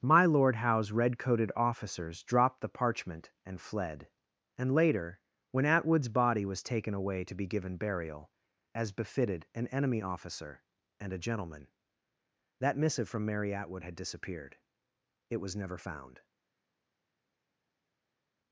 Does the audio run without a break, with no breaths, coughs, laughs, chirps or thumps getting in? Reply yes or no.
yes